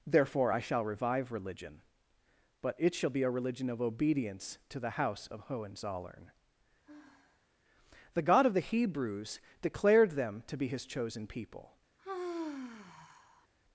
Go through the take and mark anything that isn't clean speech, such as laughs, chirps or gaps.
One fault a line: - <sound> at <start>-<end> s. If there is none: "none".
- sigh at 6.8-7.5 s
- sigh at 12.0-13.5 s